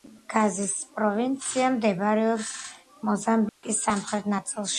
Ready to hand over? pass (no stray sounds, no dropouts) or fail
fail